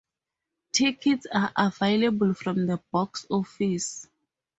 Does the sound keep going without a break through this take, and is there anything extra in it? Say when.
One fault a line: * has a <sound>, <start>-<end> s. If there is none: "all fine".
all fine